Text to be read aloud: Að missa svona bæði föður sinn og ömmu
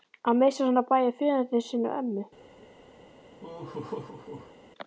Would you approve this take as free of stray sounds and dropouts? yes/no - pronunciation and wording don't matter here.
no